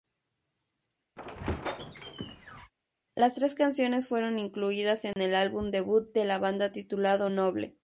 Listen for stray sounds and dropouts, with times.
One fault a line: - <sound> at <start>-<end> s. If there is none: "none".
- squeak at 1.2-2.7 s
- dropout at 5.1-5.2 s